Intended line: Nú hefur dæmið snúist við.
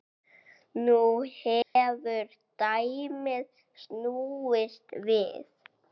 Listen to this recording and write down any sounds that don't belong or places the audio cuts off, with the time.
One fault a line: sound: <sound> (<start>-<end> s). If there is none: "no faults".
sound: dropout (1.6-1.8 s)